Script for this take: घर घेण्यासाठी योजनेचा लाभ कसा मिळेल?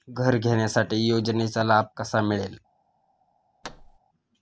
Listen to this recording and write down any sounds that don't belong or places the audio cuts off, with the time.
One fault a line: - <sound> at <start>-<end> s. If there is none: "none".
- thud at 3.6-4.0 s